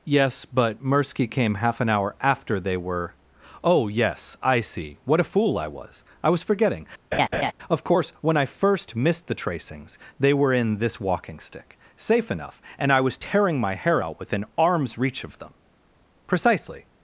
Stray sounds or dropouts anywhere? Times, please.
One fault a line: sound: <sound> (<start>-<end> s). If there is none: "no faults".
sound: laugh (7.1-7.5 s)